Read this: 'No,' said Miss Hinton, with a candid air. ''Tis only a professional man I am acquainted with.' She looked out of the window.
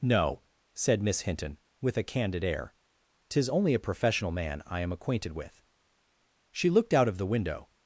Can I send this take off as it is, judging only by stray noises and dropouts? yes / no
yes